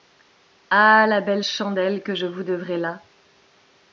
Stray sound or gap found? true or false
false